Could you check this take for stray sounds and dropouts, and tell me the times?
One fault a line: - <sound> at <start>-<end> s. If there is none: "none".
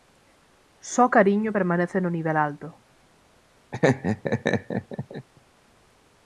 - laugh at 3.7-5.3 s